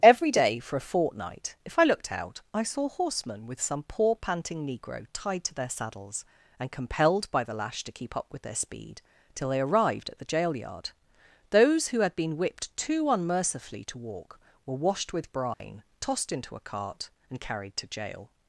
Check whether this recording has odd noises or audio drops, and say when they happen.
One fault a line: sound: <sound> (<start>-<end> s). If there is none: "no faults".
sound: dropout (15.5-15.6 s)